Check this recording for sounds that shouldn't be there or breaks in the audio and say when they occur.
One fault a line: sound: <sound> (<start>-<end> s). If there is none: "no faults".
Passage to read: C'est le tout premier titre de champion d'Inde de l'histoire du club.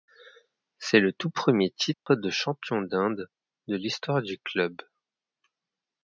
sound: dropout (1.9-2.1 s)